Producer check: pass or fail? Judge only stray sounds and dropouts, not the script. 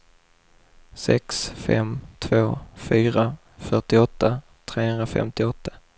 pass